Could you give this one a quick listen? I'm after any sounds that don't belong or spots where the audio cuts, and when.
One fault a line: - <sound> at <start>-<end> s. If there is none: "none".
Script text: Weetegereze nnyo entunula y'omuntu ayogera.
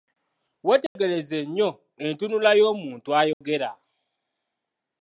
- dropout at 0.9-1.0 s
- dropout at 3.3-3.4 s